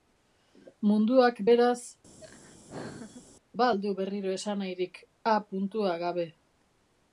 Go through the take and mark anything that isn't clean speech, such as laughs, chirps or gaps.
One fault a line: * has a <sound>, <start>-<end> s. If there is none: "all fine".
* has a laugh, 2.2-3.2 s